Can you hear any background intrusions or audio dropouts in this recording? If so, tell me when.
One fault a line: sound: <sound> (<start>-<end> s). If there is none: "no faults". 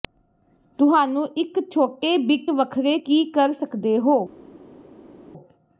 no faults